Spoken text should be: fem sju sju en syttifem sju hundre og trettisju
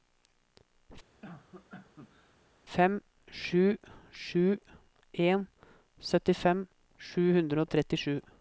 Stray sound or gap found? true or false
true